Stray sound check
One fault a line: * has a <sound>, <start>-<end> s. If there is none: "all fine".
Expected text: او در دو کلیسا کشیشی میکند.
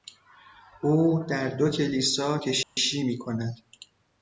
* has a dropout, 2.6-2.8 s